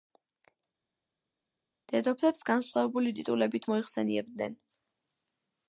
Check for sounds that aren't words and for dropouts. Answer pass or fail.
pass